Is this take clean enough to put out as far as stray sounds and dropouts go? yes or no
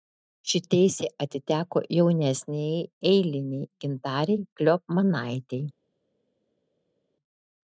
yes